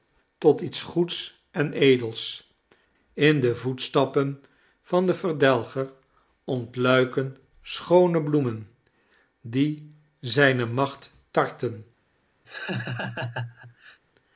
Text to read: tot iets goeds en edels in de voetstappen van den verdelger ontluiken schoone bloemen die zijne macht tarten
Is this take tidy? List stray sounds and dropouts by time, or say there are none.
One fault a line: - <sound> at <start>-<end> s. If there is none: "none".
- laugh at 12.5-14.0 s